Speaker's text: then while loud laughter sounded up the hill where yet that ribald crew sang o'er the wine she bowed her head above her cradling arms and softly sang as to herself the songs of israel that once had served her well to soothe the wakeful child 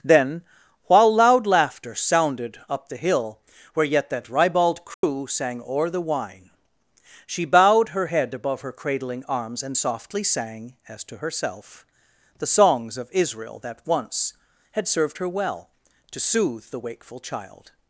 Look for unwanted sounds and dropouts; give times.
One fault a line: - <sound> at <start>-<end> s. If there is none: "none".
- dropout at 4.9-5.0 s